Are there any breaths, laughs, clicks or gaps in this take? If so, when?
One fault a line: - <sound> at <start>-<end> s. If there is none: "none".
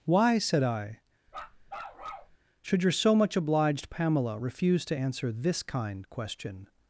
- bark at 1.3-2.4 s